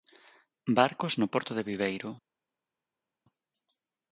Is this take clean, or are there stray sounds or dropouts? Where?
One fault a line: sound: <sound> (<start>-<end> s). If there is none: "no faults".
no faults